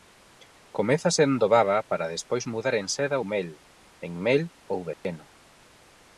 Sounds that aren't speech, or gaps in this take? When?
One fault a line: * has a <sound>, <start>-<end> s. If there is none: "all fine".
* has a dropout, 4.9-5.0 s